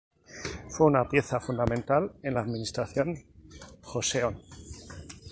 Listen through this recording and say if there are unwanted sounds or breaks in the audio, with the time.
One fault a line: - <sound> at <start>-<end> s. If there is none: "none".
none